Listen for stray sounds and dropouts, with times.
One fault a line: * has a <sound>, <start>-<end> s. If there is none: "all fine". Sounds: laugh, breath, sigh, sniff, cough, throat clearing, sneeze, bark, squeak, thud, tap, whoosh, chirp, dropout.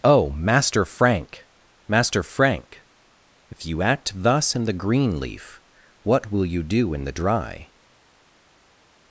all fine